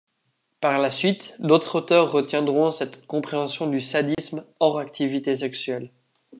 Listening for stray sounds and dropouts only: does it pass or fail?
fail